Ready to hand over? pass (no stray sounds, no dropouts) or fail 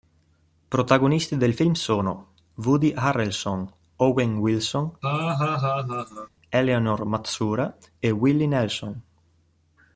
fail